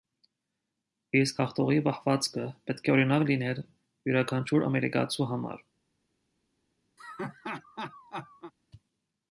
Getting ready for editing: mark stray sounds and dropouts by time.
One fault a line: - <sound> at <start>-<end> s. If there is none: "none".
- laugh at 7.0-8.5 s